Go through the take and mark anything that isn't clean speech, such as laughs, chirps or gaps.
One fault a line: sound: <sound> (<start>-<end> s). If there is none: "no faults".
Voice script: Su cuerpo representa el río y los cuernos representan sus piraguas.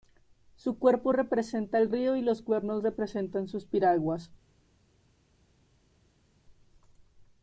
no faults